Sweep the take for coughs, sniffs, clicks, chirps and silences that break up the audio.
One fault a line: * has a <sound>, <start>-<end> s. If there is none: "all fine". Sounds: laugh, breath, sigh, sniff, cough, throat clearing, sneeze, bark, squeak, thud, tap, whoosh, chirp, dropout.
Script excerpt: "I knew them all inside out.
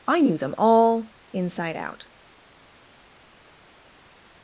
all fine